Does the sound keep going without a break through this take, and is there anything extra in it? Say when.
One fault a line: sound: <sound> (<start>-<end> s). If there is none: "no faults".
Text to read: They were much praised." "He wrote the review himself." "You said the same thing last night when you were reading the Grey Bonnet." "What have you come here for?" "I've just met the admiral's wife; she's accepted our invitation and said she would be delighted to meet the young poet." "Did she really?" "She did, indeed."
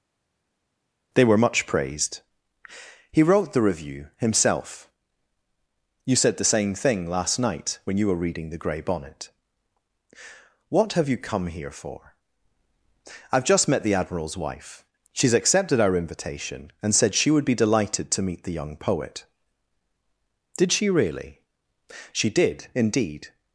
no faults